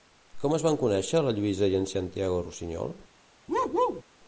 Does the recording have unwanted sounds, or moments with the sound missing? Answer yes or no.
yes